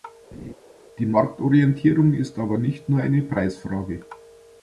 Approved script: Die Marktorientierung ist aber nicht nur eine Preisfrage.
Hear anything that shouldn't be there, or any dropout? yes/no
yes